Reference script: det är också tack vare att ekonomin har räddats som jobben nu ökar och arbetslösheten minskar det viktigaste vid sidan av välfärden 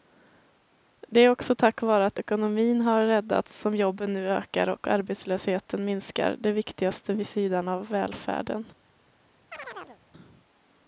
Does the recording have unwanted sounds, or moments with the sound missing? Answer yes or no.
yes